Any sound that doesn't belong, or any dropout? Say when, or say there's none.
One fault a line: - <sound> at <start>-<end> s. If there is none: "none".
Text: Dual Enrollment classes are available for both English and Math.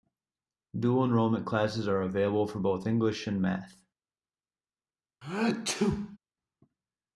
- sneeze at 5.2-6.2 s